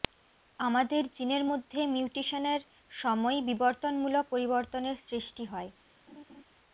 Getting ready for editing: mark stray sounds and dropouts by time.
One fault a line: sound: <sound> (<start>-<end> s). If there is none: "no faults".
sound: laugh (6.1-6.4 s)